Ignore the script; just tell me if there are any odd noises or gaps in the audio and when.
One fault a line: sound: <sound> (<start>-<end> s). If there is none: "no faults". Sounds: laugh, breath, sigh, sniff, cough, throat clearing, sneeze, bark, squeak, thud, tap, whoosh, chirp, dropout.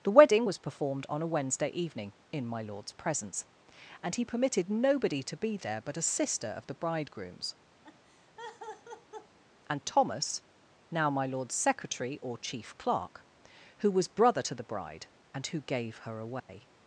sound: laugh (7.8-9.4 s)
sound: dropout (16.4-16.5 s)